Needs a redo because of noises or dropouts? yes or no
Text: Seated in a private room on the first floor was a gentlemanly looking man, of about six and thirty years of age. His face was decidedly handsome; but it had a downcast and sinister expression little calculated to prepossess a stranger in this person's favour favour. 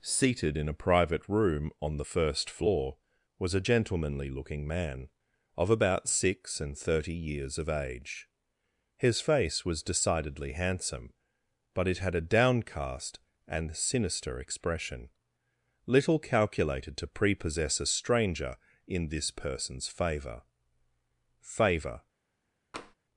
yes